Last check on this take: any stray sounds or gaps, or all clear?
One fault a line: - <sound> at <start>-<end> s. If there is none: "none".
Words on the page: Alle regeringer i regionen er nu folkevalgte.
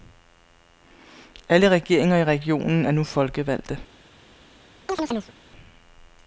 - chirp at 4.9-5.3 s